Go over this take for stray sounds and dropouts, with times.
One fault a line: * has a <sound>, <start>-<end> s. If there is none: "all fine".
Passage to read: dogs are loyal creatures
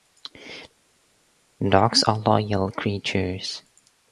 all fine